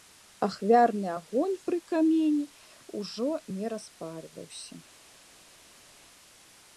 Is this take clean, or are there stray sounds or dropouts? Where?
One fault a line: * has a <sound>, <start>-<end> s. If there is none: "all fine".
all fine